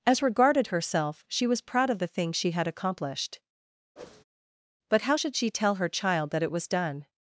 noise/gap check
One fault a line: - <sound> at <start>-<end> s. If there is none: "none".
- whoosh at 4.0-4.2 s